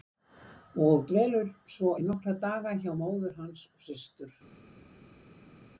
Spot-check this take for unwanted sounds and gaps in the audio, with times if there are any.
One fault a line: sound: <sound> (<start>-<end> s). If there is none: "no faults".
no faults